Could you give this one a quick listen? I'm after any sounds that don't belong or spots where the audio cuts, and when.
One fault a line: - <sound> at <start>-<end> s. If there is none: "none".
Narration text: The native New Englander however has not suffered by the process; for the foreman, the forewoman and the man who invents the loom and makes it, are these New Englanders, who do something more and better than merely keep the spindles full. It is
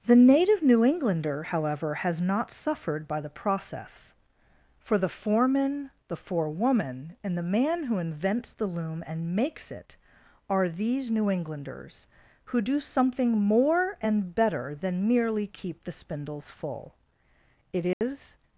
- dropout at 17.9-18.0 s